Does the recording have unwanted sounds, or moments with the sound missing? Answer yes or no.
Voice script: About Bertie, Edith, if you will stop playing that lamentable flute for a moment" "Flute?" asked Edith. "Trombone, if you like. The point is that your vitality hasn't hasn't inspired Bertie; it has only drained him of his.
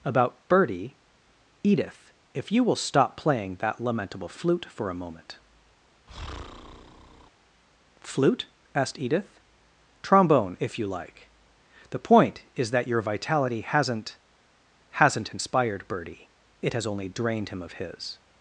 yes